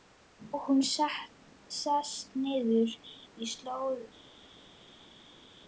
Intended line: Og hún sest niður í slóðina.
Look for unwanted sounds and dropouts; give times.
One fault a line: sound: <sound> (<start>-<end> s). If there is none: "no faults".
no faults